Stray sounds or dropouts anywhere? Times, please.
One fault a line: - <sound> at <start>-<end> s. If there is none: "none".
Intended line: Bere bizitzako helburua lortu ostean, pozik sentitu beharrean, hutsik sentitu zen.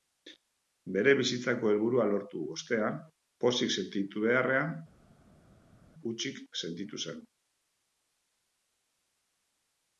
none